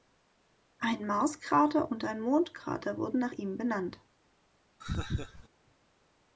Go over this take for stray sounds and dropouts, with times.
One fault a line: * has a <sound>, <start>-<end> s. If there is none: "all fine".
* has a laugh, 4.8-5.5 s